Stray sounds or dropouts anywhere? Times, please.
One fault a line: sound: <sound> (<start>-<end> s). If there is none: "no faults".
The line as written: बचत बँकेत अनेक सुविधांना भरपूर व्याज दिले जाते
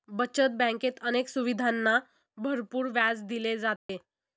sound: dropout (3.8-3.9 s)